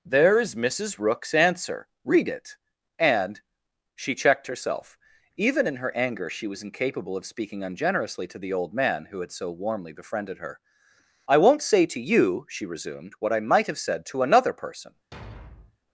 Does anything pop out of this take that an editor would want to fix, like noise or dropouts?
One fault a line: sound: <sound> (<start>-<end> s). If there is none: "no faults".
sound: thud (15.1-15.8 s)